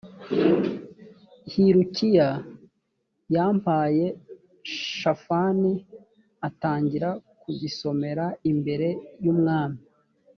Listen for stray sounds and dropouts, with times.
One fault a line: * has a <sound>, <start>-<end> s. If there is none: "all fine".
all fine